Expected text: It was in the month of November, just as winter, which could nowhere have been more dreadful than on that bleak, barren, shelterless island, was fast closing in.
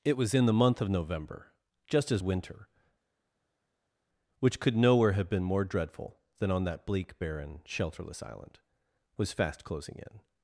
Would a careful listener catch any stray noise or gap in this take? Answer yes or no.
no